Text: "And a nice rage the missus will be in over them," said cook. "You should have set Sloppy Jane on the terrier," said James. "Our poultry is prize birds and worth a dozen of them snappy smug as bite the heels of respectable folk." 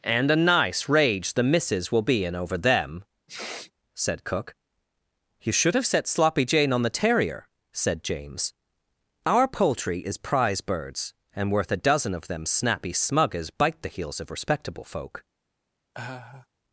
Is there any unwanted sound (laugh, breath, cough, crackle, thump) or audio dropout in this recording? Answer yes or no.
yes